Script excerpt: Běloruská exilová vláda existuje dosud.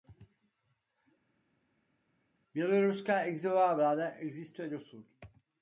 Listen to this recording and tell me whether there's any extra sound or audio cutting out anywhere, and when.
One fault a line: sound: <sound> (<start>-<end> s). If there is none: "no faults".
no faults